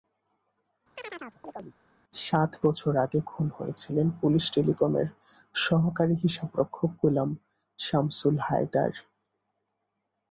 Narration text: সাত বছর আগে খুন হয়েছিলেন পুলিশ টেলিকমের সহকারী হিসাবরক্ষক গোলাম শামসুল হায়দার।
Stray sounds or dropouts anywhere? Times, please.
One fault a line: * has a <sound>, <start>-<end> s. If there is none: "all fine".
* has a chirp, 1.0-1.8 s